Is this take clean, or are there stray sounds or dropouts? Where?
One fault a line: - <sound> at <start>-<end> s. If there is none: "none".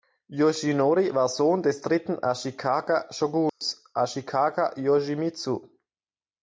- dropout at 3.5-3.6 s